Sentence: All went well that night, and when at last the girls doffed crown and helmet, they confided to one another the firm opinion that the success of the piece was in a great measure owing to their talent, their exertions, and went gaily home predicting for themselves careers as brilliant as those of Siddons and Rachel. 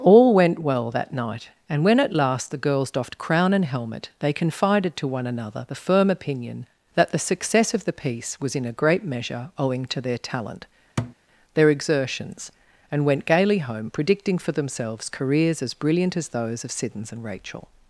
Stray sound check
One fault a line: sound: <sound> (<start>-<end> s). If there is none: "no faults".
sound: thud (11.0-11.2 s)